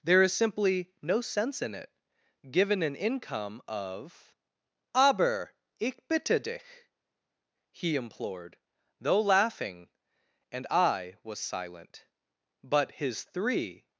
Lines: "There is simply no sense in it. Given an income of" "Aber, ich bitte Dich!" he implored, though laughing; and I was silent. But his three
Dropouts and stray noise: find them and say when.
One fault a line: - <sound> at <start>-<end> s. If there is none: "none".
none